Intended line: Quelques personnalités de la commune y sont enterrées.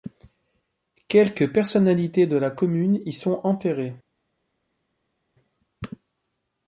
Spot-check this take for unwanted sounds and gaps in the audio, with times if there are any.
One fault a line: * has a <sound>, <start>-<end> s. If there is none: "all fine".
all fine